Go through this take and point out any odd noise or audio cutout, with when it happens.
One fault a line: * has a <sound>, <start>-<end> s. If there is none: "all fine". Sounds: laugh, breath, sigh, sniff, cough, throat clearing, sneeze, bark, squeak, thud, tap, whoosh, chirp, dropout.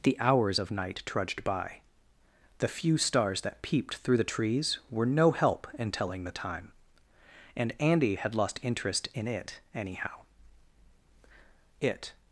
all fine